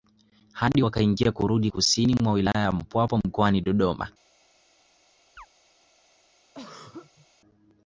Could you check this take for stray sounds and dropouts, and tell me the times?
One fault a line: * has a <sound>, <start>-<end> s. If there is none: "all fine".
* has a chirp, 5.4-5.5 s
* has a throat clearing, 6.5-7.3 s